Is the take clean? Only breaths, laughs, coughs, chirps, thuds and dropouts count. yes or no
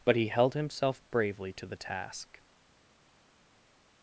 yes